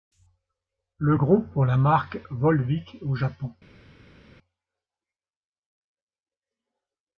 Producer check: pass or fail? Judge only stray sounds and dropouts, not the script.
pass